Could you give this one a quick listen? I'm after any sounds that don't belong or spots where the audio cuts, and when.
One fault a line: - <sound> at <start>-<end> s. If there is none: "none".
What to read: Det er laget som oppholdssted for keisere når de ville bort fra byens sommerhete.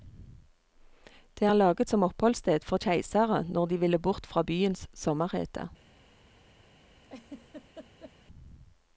- laugh at 7.0-8.1 s